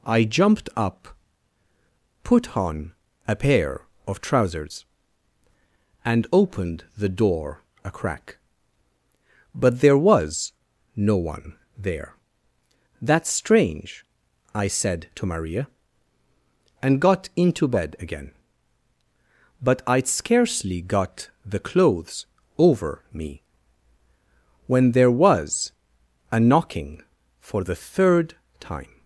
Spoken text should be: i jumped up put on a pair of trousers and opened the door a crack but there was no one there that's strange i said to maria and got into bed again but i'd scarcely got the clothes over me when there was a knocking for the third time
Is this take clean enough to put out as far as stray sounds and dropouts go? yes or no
yes